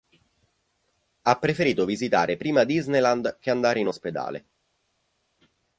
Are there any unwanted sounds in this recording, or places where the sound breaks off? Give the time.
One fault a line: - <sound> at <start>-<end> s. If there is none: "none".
none